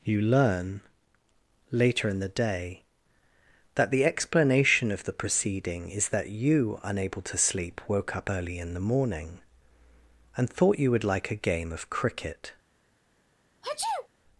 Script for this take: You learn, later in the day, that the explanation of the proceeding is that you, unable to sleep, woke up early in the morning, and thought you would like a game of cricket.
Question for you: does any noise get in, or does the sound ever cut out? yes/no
yes